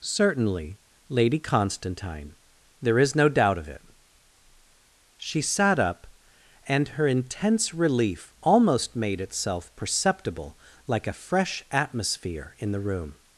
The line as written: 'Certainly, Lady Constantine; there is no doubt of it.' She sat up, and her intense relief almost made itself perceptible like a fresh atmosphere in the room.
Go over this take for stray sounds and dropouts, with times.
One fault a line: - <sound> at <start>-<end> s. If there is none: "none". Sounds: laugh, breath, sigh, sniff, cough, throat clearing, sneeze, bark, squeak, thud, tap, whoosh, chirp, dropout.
none